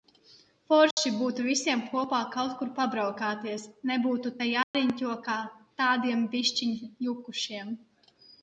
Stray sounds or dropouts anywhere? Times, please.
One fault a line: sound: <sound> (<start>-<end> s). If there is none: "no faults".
sound: dropout (0.9-1.0 s)
sound: dropout (4.6-4.7 s)